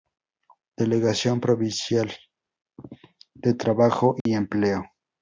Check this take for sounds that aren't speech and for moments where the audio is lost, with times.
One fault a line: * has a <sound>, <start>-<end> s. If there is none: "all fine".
* has a dropout, 4.2-4.3 s